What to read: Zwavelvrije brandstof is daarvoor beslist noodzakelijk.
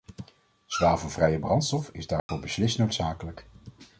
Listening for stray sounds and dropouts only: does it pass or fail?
fail